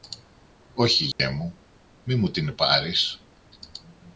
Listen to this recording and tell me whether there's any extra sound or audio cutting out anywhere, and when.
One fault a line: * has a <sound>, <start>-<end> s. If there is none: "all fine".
* has a dropout, 1.1-1.2 s